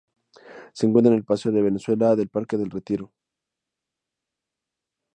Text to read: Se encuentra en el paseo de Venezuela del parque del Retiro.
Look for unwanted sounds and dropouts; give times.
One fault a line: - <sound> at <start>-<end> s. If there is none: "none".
none